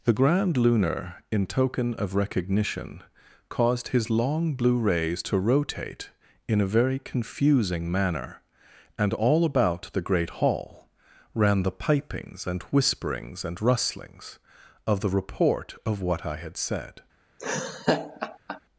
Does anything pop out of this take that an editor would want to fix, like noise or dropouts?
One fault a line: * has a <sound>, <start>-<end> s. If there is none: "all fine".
* has a laugh, 17.4-18.6 s